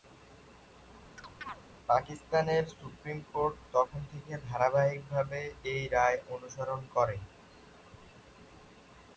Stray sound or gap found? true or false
true